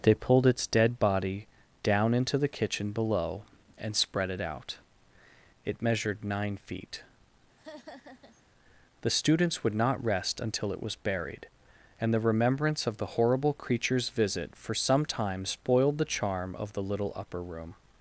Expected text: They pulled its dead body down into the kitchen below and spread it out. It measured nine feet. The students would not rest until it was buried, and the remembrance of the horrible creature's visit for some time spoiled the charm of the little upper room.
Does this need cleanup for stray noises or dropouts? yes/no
yes